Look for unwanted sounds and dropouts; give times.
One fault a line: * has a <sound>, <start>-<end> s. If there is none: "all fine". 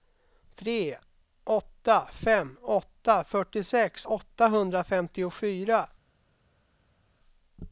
all fine